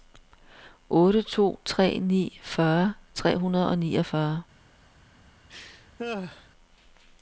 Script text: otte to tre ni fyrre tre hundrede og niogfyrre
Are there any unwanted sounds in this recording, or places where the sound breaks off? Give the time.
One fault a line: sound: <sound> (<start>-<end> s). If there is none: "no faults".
sound: laugh (5.5-6.5 s)